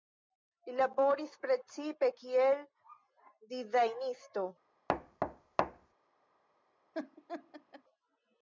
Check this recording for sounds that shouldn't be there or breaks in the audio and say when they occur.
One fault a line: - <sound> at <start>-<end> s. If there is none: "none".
- thud at 4.9-5.9 s
- laugh at 6.9-7.8 s